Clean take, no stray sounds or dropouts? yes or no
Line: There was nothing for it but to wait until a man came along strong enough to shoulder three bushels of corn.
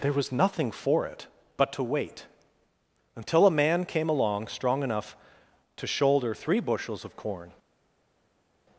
yes